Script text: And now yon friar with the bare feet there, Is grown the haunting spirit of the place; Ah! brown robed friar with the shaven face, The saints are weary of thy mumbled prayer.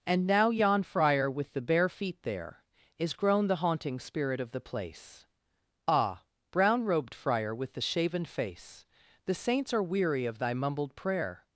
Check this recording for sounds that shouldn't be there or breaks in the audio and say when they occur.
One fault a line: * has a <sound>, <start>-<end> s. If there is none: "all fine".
all fine